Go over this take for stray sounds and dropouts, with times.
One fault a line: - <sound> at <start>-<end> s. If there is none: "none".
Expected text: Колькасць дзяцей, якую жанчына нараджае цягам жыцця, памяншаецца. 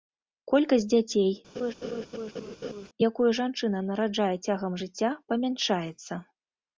- laugh at 1.6-2.9 s